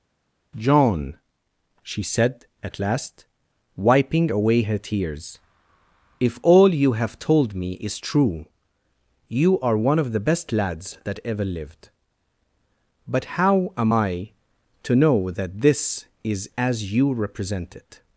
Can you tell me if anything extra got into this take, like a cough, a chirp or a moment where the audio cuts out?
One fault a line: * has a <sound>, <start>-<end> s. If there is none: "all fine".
all fine